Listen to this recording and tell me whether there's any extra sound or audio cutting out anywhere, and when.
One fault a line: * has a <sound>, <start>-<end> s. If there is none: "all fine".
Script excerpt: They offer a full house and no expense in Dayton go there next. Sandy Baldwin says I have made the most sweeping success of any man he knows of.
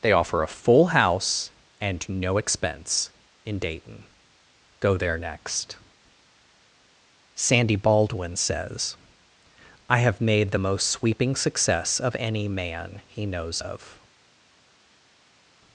all fine